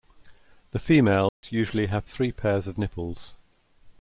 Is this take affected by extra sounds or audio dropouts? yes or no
yes